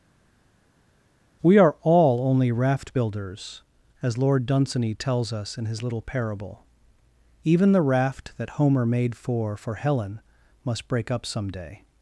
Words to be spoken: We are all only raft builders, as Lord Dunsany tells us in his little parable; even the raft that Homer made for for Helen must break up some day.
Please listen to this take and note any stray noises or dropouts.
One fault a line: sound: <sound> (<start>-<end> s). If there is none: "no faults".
no faults